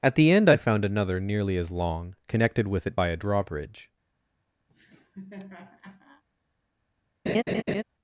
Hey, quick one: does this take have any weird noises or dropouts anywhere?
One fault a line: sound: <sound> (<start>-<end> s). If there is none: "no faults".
sound: laugh (4.7-6.2 s)
sound: laugh (7.3-7.8 s)